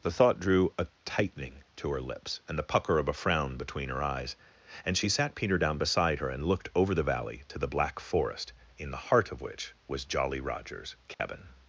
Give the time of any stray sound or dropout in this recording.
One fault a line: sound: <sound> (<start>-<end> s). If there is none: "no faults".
sound: dropout (11.1-11.2 s)